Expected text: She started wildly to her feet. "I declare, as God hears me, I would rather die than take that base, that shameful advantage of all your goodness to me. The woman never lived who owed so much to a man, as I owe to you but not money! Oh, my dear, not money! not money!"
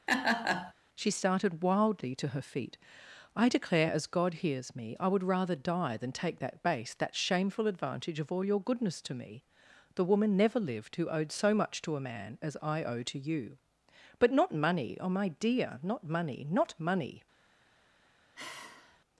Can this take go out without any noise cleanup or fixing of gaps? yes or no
no